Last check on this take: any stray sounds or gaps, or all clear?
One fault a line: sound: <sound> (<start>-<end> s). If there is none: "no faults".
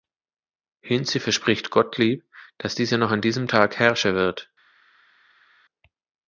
no faults